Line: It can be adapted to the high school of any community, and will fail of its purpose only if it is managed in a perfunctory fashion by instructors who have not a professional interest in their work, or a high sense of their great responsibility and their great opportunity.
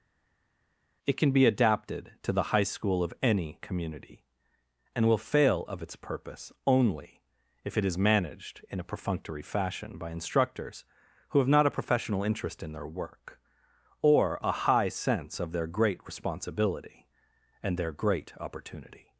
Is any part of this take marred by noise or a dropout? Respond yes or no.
no